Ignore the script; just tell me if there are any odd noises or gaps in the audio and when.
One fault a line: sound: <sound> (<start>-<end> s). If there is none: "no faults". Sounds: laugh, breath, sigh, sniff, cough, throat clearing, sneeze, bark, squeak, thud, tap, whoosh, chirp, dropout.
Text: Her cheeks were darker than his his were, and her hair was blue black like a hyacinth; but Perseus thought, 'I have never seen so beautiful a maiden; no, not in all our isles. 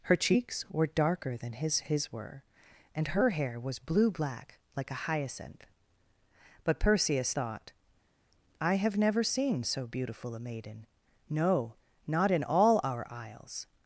no faults